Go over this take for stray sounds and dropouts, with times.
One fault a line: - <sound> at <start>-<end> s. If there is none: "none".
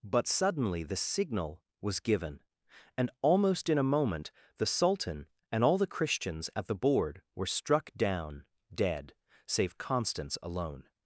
none